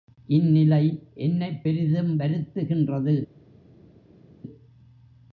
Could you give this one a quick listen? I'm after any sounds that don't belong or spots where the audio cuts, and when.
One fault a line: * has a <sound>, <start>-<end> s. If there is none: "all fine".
all fine